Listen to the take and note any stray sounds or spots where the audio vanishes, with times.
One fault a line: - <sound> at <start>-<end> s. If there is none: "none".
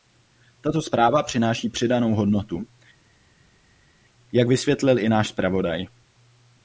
none